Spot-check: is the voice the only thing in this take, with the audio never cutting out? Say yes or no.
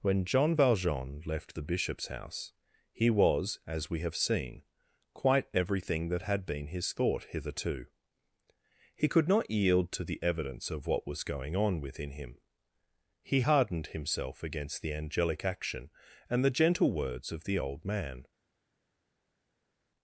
yes